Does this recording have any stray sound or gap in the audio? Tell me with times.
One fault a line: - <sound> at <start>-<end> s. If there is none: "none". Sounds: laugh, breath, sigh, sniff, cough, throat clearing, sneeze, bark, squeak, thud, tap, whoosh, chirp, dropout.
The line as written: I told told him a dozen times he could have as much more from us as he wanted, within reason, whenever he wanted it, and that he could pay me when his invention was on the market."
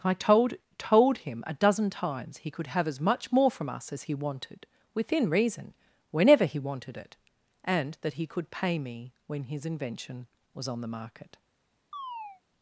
- chirp at 11.9-12.4 s